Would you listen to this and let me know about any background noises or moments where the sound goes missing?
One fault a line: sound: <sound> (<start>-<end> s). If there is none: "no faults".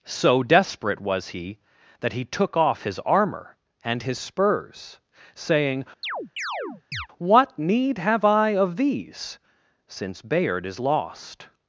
sound: chirp (6.0-7.1 s)